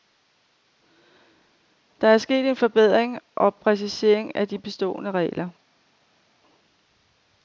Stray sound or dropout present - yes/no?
no